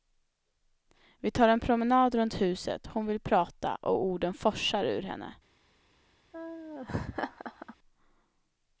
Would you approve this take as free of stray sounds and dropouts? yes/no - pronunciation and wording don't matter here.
no